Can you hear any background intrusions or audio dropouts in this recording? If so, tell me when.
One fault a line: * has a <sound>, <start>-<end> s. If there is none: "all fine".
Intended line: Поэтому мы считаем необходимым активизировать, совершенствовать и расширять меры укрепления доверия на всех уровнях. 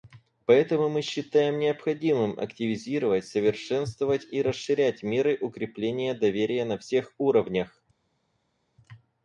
all fine